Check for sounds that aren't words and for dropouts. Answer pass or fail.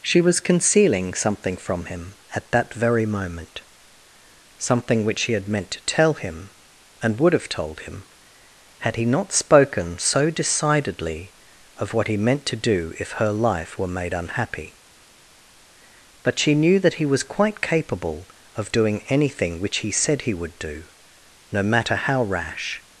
pass